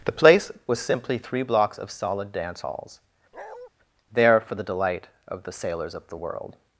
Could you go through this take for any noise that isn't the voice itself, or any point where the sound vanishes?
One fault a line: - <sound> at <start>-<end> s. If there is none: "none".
- bark at 3.3-3.7 s